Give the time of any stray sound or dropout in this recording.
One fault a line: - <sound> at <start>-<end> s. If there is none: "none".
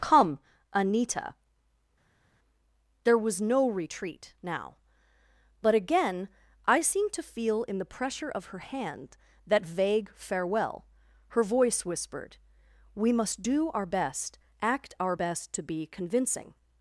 none